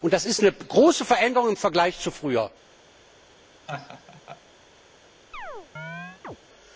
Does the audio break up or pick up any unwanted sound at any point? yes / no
yes